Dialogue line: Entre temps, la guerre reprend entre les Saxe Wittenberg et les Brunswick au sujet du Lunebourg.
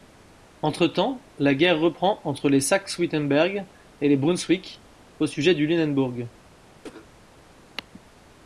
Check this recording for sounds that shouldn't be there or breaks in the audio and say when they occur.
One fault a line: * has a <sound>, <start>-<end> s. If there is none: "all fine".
* has a cough, 6.8-7.1 s